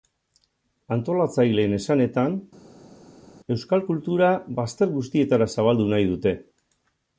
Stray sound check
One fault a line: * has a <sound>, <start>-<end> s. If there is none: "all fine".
all fine